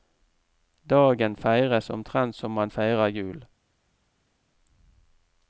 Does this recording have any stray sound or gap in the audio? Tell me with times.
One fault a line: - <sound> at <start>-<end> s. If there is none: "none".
none